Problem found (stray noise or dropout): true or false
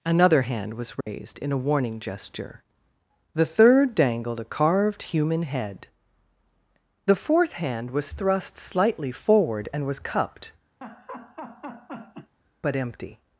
true